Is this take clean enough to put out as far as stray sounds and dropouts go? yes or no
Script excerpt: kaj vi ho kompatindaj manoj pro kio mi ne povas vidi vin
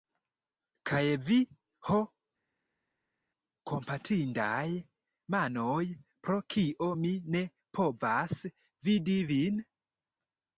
yes